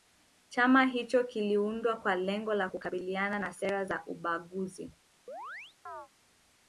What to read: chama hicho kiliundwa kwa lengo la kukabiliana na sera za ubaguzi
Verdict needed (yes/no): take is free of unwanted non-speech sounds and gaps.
no